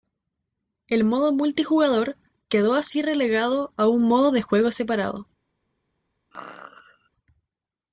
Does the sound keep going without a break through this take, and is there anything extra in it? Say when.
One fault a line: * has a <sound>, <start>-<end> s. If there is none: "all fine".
* has a sneeze, 6.3-7.1 s